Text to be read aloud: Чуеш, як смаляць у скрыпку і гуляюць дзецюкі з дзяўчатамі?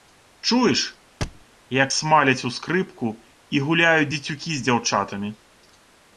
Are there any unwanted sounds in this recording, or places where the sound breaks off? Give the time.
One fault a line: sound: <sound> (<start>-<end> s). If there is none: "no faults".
sound: thud (1.2-1.5 s)